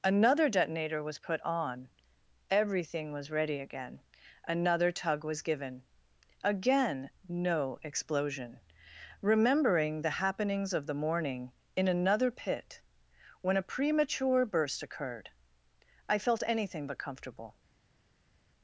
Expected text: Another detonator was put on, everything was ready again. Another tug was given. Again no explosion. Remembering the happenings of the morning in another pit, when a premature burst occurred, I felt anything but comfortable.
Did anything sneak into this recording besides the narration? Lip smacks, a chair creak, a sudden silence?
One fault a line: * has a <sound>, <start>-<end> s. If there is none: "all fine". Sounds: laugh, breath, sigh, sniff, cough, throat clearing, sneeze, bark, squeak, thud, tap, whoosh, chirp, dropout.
all fine